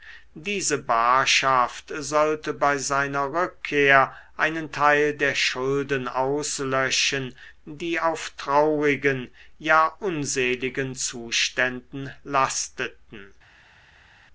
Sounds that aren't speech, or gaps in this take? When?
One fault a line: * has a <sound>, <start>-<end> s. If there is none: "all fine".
all fine